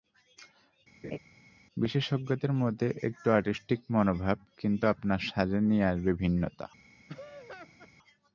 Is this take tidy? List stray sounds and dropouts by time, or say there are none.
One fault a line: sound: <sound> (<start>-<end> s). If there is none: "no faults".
sound: laugh (1.0-1.2 s)
sound: laugh (7.1-7.9 s)